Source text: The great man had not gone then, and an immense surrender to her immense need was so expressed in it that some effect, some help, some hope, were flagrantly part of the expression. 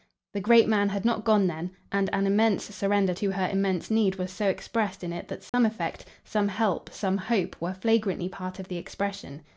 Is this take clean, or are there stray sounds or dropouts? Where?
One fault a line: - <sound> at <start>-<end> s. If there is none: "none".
- dropout at 5.5-5.5 s